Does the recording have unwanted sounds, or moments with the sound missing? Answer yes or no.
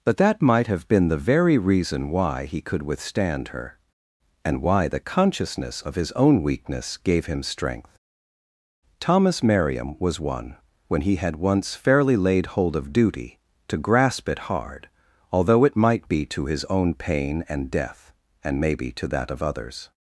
no